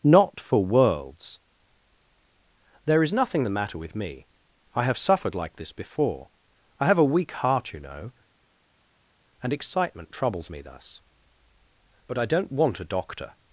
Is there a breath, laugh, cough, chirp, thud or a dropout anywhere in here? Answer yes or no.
no